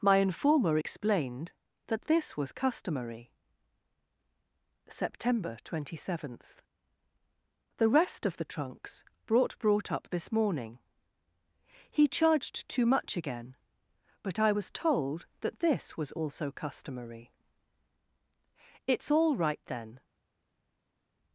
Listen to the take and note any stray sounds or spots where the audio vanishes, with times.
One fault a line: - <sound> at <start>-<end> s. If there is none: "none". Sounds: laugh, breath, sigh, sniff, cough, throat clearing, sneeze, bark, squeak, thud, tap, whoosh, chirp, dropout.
none